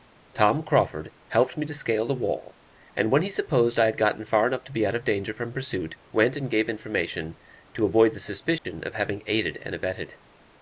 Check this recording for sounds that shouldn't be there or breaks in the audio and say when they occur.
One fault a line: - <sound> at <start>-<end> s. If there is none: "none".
- dropout at 8.6-8.7 s